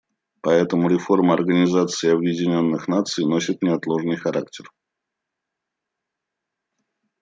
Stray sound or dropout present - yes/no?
no